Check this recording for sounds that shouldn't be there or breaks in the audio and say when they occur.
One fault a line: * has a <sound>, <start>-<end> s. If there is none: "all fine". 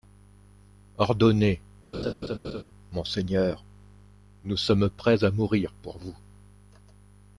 * has a laugh, 1.9-2.6 s